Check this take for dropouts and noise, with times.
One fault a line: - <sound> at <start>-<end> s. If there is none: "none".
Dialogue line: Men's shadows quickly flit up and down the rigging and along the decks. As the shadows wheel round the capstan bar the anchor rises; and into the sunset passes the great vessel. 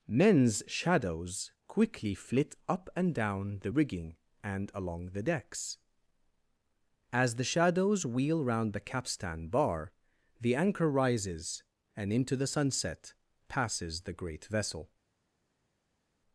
none